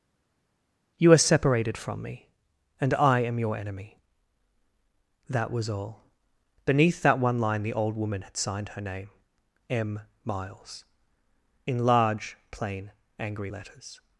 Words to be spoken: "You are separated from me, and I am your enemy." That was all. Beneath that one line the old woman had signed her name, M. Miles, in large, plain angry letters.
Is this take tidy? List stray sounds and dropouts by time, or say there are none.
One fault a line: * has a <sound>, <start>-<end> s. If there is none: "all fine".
all fine